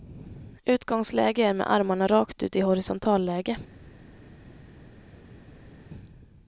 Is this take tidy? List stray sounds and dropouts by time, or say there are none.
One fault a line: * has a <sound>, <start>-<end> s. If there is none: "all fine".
all fine